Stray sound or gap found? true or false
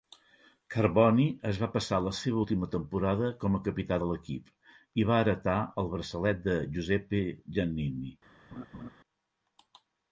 true